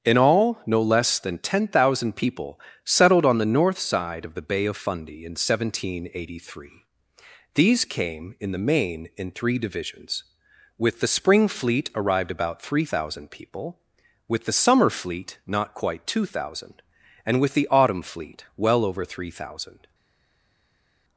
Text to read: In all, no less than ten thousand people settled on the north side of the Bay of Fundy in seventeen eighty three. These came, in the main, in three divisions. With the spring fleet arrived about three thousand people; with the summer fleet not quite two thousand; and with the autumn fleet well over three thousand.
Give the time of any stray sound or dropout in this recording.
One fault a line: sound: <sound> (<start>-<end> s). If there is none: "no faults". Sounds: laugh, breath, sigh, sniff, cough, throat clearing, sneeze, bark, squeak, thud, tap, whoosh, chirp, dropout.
no faults